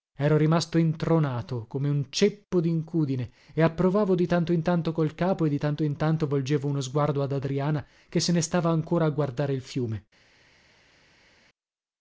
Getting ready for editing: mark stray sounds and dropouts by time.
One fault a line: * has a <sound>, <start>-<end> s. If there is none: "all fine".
all fine